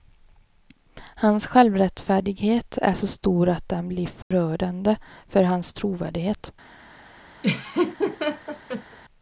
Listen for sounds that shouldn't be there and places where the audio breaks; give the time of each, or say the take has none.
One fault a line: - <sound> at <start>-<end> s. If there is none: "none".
- dropout at 4.2-4.3 s
- laugh at 7.4-9.0 s